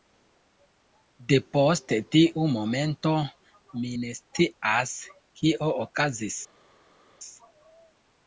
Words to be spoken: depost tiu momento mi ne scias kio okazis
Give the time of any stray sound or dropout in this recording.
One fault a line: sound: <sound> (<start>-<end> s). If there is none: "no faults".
no faults